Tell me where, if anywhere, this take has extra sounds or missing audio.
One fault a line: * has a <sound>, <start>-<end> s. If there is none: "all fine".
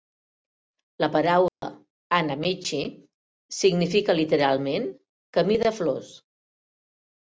* has a dropout, 1.5-1.6 s